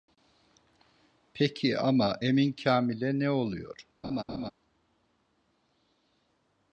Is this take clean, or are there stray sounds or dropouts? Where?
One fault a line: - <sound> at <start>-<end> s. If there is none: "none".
- laugh at 4.0-4.5 s